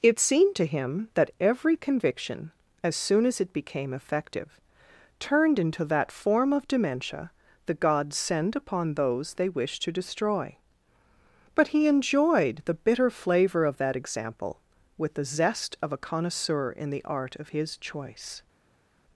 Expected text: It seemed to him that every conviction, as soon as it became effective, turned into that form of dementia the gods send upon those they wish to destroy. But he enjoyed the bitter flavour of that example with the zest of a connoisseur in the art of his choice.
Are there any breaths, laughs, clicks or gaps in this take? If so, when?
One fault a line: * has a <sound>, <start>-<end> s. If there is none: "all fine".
all fine